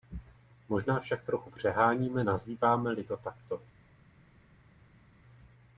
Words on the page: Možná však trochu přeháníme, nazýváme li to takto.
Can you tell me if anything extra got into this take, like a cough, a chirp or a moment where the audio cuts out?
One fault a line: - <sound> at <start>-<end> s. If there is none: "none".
none